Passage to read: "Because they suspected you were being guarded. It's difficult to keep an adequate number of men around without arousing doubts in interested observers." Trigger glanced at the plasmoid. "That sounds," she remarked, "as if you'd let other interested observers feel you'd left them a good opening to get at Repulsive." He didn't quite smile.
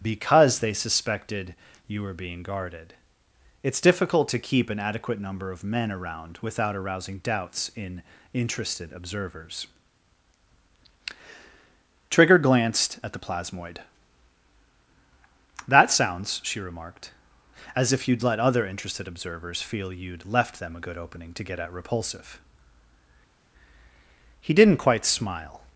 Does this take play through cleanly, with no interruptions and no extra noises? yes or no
yes